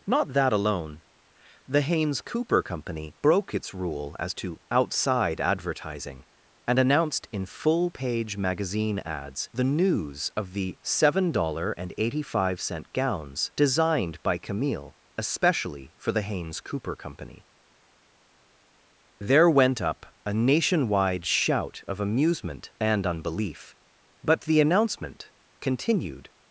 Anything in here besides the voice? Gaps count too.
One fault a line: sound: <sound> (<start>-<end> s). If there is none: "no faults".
no faults